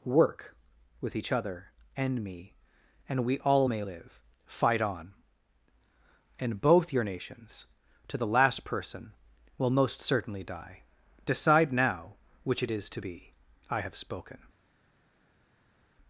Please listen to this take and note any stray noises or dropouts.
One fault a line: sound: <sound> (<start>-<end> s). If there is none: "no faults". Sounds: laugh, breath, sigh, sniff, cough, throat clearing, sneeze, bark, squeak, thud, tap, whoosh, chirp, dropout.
no faults